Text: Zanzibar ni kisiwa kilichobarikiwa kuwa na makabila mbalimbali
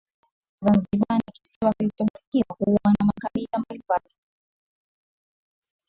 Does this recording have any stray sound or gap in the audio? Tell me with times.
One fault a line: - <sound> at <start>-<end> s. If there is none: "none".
none